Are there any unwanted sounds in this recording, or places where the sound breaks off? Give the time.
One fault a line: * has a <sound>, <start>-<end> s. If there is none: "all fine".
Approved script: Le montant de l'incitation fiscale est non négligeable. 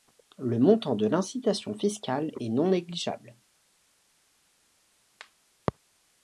all fine